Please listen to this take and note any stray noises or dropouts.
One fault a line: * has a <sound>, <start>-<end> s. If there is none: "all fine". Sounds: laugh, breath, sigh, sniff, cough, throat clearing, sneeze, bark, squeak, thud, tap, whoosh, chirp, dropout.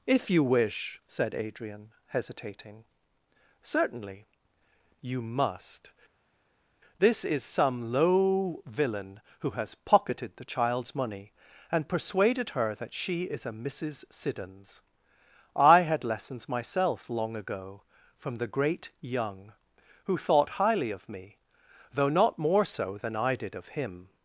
all fine